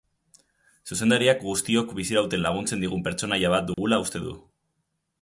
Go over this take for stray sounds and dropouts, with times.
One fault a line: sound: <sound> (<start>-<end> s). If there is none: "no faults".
sound: dropout (3.7-3.8 s)